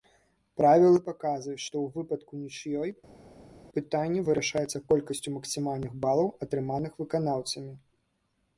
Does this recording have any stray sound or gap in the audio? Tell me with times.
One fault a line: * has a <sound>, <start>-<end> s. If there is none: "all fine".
all fine